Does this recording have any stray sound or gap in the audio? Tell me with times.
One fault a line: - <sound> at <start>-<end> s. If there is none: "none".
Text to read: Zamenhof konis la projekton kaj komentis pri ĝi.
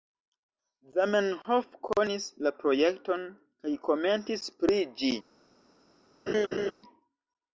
- laugh at 6.3-6.7 s